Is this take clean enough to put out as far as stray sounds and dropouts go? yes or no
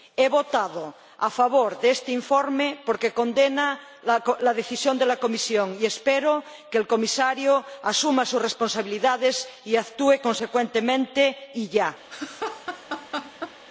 no